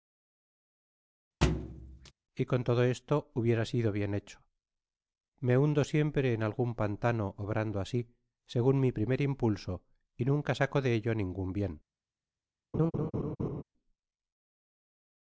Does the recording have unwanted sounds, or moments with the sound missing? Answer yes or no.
yes